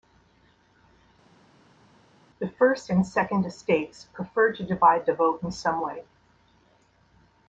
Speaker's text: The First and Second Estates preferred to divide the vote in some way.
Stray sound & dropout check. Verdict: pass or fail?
pass